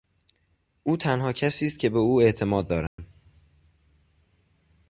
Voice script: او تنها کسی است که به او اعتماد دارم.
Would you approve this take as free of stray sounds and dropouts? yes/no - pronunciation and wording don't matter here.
no